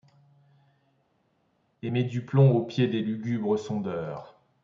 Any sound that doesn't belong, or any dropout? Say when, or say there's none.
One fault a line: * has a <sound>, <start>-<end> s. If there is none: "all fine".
all fine